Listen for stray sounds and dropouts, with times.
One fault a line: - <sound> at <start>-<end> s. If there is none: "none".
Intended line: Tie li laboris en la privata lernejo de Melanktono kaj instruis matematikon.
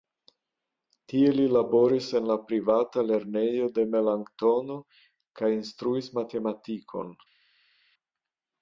none